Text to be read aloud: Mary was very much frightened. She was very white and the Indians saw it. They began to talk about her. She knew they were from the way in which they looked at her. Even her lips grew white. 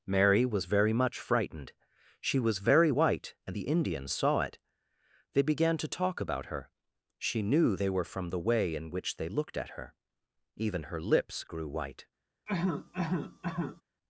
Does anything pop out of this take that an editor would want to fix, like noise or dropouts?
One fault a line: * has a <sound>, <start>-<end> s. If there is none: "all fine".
* has a cough, 12.5-13.8 s